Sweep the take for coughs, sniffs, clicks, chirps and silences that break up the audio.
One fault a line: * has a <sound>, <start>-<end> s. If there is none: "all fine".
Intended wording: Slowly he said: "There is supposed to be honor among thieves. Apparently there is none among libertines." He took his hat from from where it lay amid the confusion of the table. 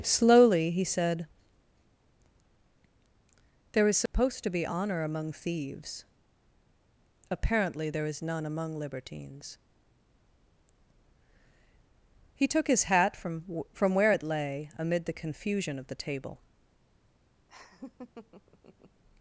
* has a dropout, 4.1-4.1 s
* has a laugh, 17.5-19.0 s